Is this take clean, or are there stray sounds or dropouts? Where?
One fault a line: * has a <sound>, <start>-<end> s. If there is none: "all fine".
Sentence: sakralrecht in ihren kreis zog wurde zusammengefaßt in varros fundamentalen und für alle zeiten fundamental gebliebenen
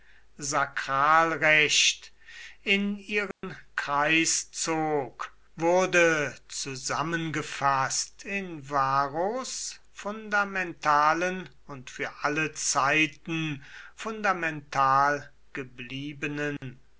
* has a dropout, 3.3-3.4 s
* has a dropout, 16.6-16.6 s